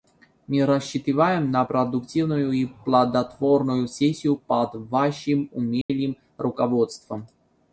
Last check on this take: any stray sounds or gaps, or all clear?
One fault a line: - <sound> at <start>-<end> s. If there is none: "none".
- dropout at 5.8-5.9 s